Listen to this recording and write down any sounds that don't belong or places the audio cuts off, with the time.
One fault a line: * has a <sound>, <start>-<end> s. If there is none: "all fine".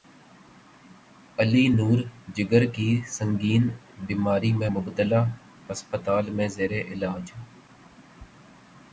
all fine